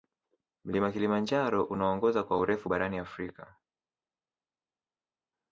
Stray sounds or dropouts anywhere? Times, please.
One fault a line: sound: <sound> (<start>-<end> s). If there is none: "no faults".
no faults